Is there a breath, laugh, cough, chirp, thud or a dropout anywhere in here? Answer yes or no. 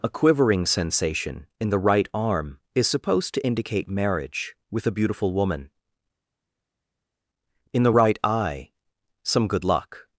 no